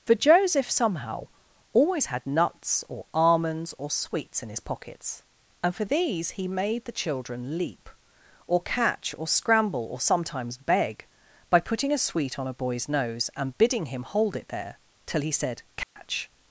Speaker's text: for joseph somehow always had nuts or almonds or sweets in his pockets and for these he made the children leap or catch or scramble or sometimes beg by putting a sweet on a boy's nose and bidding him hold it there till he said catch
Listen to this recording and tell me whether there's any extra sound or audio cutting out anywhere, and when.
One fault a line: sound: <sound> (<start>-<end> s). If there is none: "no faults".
sound: dropout (15.8-16.0 s)